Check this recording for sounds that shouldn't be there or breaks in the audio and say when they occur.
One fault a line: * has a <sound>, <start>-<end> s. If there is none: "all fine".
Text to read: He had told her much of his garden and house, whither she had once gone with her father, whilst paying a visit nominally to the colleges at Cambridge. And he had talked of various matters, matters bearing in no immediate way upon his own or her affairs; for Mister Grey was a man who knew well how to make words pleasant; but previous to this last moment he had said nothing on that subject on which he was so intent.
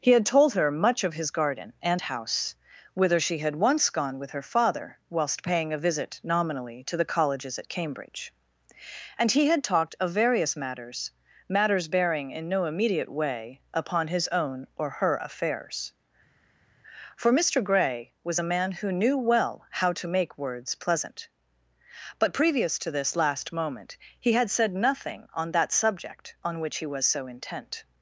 all fine